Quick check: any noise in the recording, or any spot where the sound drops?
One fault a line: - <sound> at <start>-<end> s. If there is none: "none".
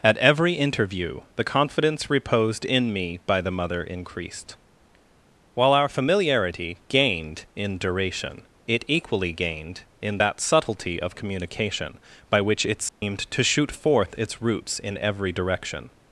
- dropout at 12.9-13.0 s